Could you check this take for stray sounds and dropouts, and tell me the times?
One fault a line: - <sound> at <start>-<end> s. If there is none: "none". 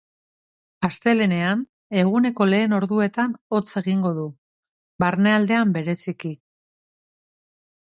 none